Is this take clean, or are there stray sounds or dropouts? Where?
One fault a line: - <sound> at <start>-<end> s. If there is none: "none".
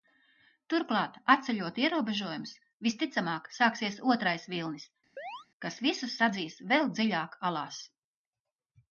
- chirp at 5.2-5.5 s